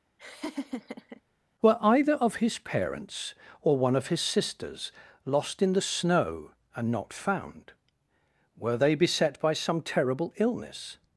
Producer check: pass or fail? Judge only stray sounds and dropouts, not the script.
fail